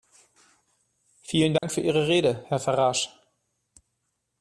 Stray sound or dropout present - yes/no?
yes